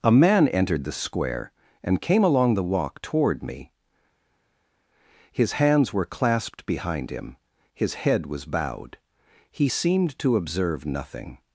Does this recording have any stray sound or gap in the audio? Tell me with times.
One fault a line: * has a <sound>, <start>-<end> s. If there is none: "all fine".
all fine